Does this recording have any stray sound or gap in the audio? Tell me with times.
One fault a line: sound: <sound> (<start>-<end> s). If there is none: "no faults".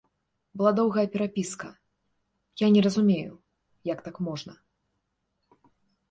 no faults